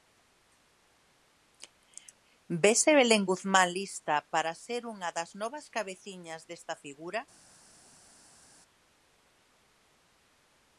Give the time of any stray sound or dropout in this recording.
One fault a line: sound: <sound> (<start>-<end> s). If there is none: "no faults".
no faults